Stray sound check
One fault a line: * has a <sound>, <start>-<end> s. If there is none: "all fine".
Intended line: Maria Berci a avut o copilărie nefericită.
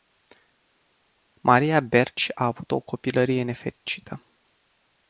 all fine